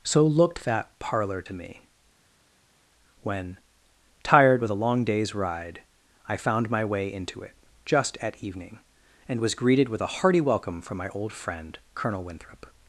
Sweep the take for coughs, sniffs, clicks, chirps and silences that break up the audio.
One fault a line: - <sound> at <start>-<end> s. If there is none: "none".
none